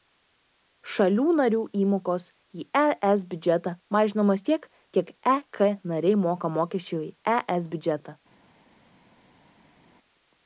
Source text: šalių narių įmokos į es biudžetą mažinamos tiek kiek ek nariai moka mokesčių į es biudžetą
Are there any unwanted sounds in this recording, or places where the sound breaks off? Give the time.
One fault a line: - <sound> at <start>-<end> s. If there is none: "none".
none